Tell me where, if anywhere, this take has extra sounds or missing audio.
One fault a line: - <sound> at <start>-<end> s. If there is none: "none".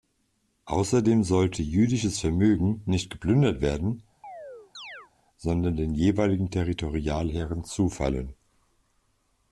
- chirp at 4.2-5.1 s